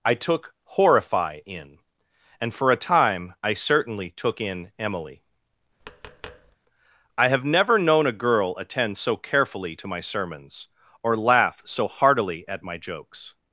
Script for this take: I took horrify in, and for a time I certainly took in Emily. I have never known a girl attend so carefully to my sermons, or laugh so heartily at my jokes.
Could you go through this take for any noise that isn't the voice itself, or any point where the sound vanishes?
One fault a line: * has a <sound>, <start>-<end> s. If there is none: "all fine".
* has a tap, 5.8-6.6 s